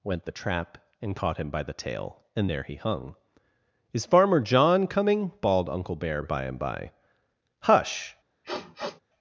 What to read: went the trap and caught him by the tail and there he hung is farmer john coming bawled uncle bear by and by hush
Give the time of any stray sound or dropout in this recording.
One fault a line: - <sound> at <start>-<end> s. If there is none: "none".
- sniff at 8.4-9.0 s